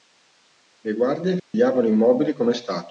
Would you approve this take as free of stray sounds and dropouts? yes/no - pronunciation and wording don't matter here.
no